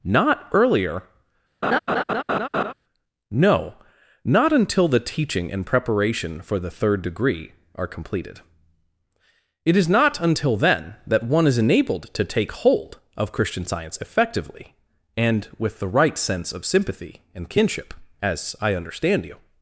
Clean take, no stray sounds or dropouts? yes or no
no